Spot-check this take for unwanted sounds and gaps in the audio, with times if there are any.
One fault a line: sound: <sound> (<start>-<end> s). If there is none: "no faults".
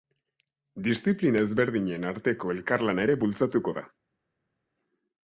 no faults